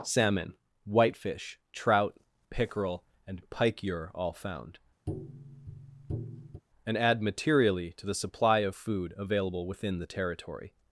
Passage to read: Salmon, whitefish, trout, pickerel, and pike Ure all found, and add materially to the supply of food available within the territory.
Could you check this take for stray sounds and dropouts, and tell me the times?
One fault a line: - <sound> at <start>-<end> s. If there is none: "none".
- tap at 5.1-6.6 s